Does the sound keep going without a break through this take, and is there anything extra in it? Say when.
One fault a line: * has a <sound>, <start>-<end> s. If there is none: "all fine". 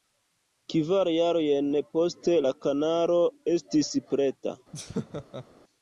* has a laugh, 4.7-5.4 s